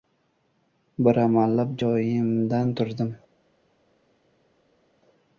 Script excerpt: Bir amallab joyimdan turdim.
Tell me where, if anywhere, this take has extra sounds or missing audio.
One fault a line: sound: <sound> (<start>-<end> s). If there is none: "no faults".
no faults